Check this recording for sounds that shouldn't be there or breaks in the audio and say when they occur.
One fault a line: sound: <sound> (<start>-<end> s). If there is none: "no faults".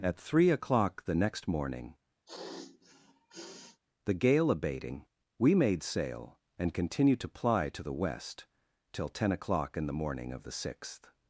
sound: sniff (2.3-3.8 s)